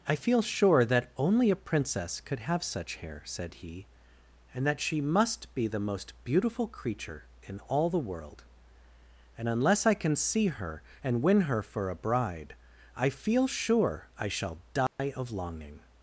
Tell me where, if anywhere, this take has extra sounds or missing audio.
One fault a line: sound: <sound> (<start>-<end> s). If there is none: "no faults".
sound: dropout (14.9-15.0 s)